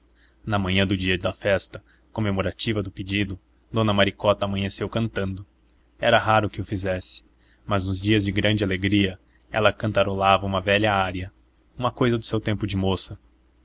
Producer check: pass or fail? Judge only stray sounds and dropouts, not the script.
pass